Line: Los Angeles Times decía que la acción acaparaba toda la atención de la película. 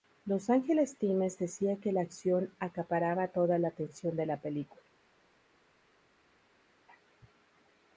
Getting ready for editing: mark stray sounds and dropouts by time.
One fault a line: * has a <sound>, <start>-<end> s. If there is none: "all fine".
all fine